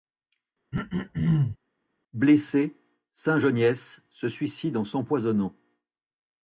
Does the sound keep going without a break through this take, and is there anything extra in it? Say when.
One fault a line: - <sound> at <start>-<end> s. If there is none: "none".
- throat clearing at 0.7-1.6 s